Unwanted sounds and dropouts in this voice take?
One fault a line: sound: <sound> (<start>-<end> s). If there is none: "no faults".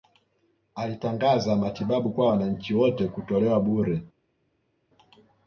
no faults